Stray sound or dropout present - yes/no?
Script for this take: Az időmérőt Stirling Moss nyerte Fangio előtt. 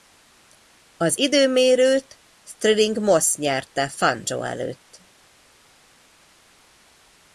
no